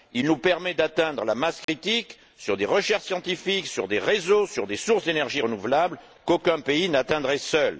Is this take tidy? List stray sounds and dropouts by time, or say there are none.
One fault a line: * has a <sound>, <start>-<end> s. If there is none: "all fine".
* has a dropout, 1.6-1.7 s